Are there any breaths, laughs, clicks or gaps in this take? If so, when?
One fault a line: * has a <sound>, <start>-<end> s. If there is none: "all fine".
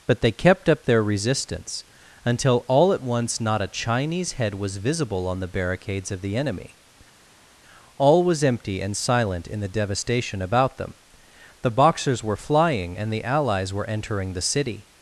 all fine